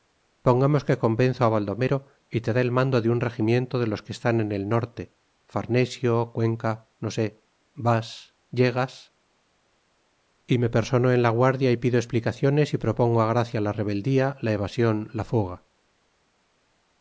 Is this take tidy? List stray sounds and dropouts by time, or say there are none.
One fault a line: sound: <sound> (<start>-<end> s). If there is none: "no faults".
no faults